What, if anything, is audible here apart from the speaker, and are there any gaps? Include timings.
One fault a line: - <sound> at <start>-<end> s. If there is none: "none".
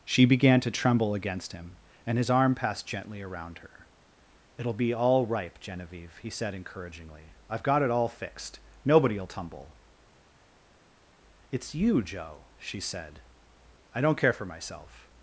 none